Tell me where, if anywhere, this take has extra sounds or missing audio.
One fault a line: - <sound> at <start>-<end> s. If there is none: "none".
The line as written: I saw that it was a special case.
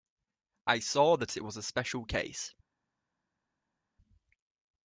none